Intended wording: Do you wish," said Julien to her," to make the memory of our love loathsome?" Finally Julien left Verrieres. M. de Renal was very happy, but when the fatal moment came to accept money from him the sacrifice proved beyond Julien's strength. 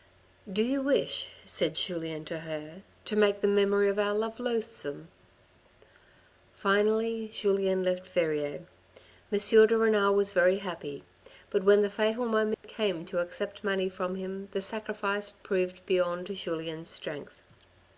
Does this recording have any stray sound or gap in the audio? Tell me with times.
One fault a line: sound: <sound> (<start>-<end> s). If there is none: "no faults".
sound: dropout (12.5-12.6 s)